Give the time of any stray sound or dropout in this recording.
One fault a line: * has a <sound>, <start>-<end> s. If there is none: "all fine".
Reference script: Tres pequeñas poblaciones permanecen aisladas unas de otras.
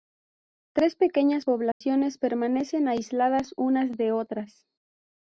* has a dropout, 1.7-1.8 s